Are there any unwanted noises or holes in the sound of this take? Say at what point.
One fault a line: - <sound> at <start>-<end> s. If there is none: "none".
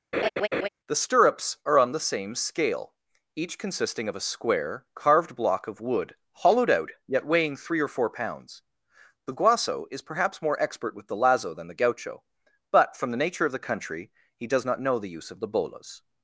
- laugh at 0.1-0.7 s